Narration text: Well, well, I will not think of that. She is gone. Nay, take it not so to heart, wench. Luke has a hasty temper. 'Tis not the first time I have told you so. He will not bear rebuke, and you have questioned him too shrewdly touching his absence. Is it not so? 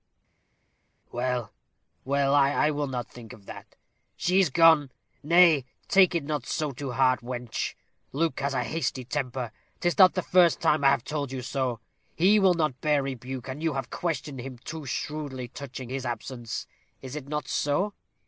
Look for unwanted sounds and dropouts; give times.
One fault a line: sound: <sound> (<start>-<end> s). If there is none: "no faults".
no faults